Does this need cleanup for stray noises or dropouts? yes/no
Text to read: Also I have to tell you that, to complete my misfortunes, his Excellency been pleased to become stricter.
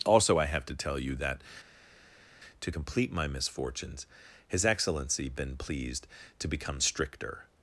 no